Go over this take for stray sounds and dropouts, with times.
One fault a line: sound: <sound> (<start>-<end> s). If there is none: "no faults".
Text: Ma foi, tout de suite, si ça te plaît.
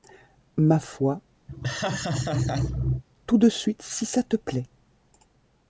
sound: laugh (1.5-3.0 s)